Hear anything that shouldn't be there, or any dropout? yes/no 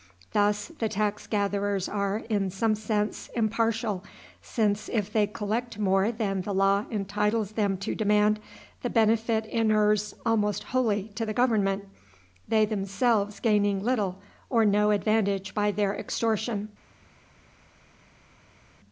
no